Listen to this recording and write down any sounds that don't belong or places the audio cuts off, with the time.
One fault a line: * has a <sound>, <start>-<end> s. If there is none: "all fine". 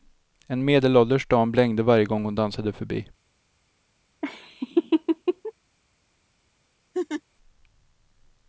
* has a laugh, 4.2-5.5 s
* has a laugh, 6.9-7.2 s